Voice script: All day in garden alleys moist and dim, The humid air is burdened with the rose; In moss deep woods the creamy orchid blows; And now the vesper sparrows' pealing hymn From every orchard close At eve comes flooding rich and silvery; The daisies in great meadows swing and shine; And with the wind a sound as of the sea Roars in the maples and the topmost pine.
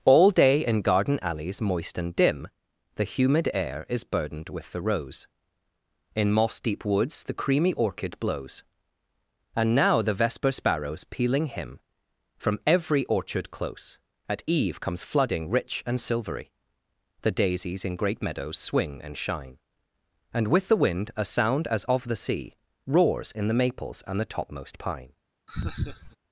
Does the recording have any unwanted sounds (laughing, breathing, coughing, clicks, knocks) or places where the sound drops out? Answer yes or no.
yes